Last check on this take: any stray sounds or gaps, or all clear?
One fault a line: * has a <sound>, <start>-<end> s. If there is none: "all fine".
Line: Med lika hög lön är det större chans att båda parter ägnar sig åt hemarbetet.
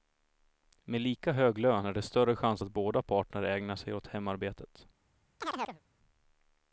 * has a chirp, 5.4-5.8 s